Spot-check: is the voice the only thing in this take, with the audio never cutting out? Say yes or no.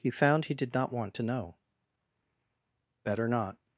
yes